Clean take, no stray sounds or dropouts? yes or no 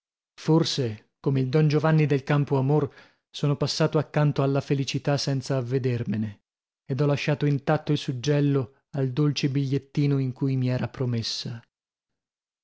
yes